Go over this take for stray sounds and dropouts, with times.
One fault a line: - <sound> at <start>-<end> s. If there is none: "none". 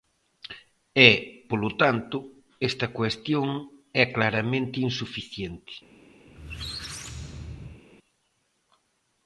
- squeak at 6.3-7.8 s